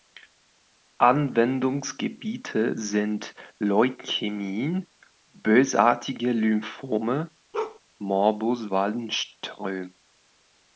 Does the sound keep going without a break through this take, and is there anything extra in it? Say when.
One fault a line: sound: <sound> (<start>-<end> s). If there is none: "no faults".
sound: bark (7.5-7.8 s)